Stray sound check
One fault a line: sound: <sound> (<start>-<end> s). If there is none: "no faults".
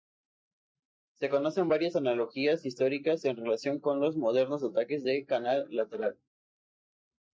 no faults